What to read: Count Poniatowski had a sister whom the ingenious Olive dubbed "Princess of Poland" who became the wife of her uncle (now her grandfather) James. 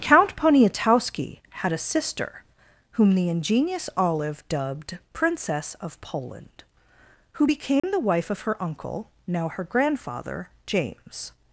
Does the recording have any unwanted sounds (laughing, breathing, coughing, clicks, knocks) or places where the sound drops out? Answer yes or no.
yes